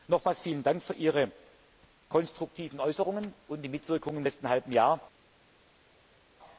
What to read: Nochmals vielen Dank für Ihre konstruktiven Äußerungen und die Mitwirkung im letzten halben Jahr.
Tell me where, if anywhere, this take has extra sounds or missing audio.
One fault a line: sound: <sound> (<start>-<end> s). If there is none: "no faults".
no faults